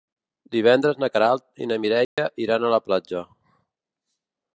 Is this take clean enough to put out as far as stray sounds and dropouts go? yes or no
no